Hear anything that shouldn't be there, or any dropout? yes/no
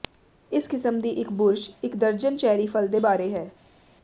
no